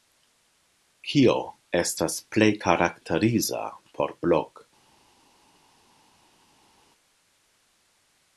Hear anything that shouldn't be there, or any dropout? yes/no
no